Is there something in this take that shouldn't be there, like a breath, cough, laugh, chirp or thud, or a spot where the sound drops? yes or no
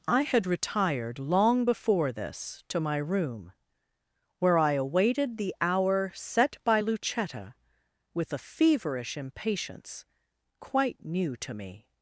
no